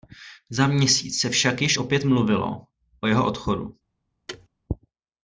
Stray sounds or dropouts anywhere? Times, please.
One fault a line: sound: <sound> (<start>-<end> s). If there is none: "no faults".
sound: thud (4.3-4.5 s)